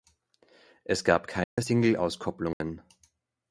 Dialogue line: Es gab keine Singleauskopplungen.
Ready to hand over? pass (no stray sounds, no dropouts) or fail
fail